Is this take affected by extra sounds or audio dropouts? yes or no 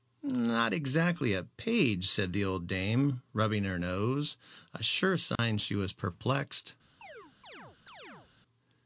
yes